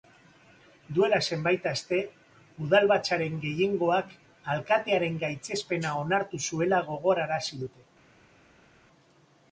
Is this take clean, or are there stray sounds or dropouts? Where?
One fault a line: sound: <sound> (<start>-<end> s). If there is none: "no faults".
no faults